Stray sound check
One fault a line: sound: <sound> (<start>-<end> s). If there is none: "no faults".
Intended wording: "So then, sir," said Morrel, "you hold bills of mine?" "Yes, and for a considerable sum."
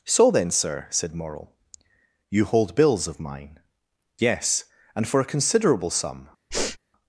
sound: sniff (6.5-6.8 s)